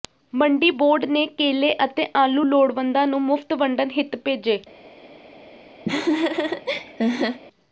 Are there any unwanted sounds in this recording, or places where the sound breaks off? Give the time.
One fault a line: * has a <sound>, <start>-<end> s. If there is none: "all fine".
* has a laugh, 5.9-7.4 s